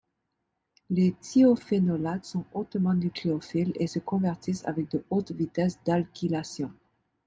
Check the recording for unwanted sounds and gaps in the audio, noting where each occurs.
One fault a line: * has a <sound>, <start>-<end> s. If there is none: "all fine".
all fine